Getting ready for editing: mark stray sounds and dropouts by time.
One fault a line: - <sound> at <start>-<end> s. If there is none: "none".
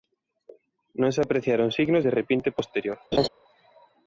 - laugh at 3.1-3.3 s